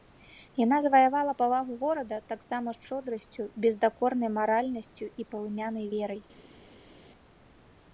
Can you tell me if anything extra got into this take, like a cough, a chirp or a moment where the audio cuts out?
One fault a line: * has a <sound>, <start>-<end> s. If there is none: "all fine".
all fine